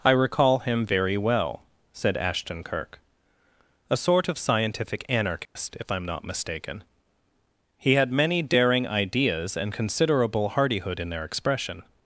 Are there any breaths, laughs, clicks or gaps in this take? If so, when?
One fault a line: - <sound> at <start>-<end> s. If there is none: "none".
- dropout at 5.5-5.6 s